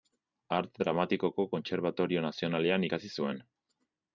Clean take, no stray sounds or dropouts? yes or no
yes